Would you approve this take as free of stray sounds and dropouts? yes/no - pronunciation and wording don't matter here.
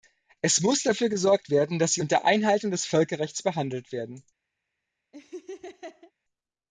no